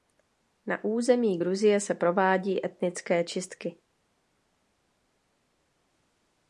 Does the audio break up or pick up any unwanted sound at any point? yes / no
no